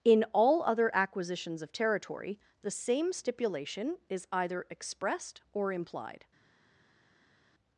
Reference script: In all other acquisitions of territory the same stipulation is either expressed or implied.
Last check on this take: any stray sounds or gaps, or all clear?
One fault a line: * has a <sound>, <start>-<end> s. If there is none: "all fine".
all fine